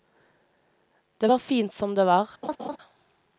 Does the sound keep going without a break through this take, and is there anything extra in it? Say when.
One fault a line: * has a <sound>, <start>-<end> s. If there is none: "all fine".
* has a laugh, 2.4-2.8 s